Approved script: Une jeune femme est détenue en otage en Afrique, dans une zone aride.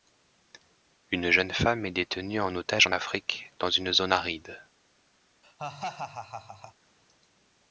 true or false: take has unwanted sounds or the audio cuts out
true